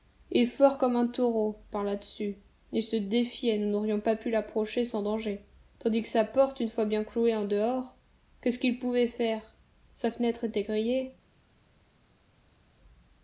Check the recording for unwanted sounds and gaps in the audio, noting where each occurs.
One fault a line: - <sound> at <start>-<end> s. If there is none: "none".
none